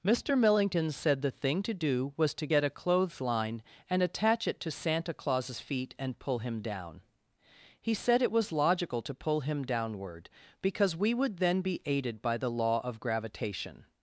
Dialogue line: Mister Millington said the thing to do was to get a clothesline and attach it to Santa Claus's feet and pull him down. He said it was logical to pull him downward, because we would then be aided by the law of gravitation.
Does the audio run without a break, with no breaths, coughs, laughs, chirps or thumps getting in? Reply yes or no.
yes